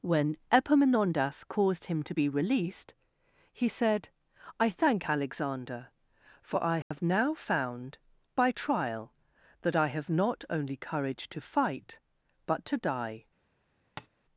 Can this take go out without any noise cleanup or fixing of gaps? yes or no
no